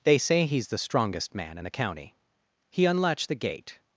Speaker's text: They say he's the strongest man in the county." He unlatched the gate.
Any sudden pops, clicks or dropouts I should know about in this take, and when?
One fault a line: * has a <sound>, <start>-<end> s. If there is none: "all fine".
all fine